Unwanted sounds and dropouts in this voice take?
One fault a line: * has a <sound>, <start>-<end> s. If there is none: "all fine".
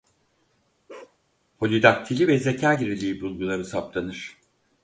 * has a bark, 0.9-1.2 s